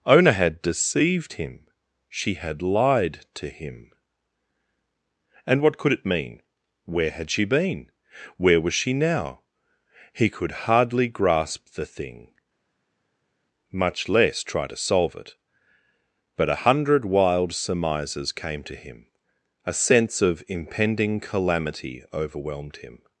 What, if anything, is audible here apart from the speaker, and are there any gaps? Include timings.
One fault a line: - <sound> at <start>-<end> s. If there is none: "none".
none